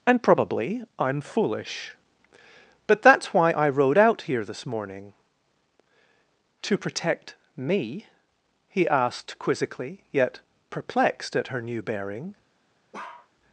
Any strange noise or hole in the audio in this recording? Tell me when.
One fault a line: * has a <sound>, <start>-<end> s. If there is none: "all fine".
* has a bark, 12.9-13.3 s